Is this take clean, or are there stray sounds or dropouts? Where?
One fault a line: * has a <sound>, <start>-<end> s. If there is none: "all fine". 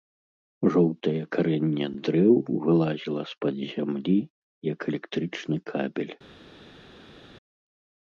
all fine